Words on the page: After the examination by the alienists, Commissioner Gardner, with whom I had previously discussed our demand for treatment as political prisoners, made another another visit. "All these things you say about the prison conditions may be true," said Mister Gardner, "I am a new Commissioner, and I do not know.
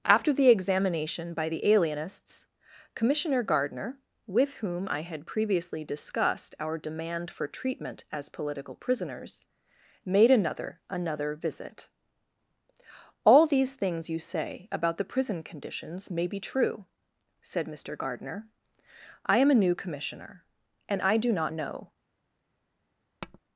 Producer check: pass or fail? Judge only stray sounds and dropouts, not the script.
fail